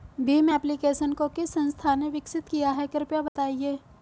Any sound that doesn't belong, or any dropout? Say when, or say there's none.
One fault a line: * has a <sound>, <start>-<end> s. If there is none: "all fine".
* has a dropout, 3.3-3.4 s